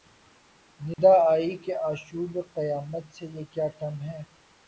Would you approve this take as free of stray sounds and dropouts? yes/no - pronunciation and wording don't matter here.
no